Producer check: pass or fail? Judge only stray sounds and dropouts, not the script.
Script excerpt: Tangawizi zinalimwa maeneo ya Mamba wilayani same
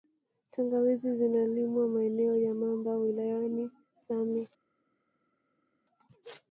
pass